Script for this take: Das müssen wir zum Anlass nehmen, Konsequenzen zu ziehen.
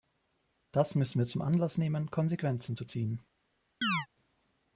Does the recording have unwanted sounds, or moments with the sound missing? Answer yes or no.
yes